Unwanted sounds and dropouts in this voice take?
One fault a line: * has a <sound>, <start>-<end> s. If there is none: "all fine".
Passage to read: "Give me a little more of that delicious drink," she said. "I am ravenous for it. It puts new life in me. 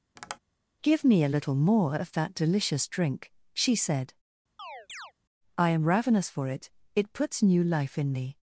* has a tap, 0.2-0.4 s
* has a chirp, 4.6-5.1 s